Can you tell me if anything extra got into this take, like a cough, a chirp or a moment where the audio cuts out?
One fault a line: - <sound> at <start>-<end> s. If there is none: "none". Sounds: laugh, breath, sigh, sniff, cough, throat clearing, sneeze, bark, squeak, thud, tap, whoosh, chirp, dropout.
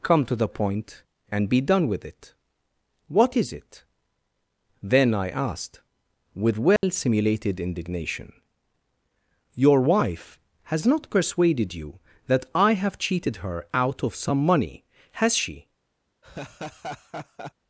- dropout at 6.8-6.8 s
- laugh at 16.2-17.5 s